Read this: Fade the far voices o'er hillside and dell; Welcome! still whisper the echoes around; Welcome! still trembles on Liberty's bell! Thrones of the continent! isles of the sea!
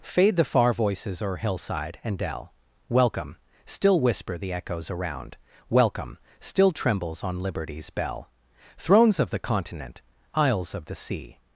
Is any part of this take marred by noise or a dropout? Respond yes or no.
no